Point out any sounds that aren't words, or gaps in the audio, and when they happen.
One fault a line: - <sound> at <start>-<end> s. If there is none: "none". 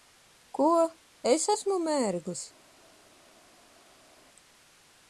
none